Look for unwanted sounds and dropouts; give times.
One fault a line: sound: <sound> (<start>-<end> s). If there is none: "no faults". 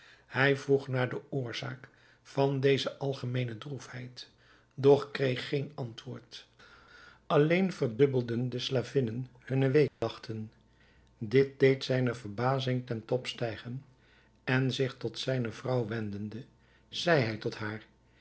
sound: dropout (9.9-10.0 s)